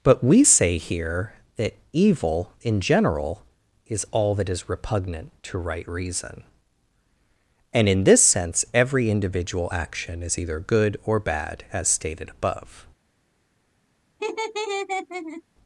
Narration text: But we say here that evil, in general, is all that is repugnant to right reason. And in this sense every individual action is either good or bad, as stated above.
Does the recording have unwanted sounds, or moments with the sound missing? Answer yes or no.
yes